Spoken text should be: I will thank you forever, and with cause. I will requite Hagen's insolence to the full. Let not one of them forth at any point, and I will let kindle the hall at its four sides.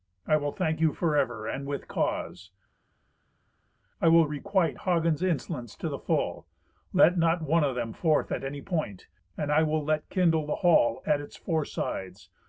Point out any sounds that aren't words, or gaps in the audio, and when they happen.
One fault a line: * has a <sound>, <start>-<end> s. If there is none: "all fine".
all fine